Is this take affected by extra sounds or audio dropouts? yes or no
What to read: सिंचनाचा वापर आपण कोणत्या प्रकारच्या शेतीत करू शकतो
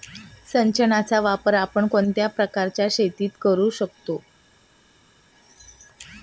no